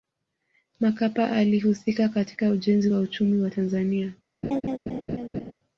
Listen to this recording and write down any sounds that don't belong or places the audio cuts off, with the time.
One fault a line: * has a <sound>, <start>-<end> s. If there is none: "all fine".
* has a laugh, 4.4-5.5 s